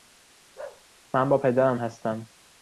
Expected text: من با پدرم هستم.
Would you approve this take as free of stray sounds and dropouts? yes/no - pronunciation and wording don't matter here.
no